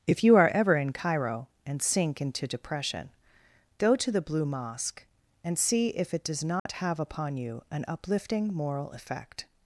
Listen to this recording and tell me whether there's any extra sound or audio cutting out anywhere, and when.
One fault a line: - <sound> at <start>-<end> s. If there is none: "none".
- dropout at 6.6-6.7 s